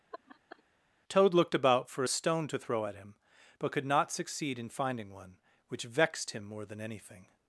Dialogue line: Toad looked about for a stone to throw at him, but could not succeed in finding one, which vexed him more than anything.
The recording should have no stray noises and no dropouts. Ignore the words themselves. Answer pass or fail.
fail